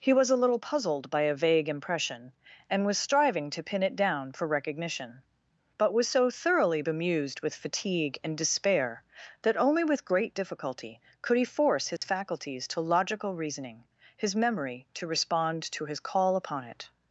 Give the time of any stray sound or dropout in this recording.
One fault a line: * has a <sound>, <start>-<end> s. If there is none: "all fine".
* has a dropout, 12.0-12.0 s